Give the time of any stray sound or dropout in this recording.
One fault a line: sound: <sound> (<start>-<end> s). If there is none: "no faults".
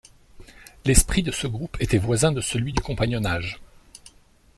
no faults